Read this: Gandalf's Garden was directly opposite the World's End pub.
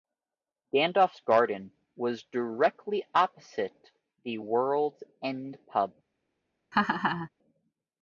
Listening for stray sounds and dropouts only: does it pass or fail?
fail